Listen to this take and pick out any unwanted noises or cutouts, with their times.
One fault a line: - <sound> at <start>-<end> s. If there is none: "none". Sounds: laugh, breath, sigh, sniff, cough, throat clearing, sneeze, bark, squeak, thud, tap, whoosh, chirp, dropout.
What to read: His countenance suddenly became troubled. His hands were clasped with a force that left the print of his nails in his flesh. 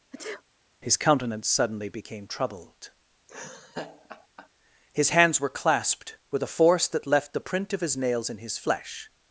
- sneeze at 0.1-0.4 s
- laugh at 3.3-4.5 s